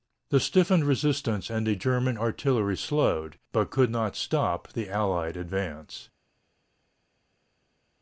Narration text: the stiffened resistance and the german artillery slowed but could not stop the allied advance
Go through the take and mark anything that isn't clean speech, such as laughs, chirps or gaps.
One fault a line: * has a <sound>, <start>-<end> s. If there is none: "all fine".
all fine